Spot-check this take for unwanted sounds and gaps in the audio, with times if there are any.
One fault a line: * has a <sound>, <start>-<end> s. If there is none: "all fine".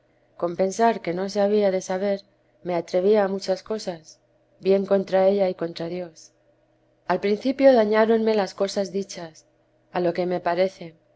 all fine